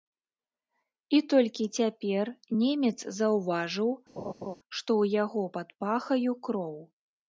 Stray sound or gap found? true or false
true